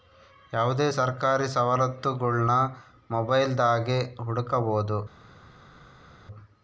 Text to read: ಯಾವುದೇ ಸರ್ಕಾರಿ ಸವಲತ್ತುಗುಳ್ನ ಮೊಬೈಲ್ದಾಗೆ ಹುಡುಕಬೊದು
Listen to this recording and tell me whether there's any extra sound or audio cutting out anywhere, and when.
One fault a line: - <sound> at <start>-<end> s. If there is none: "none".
none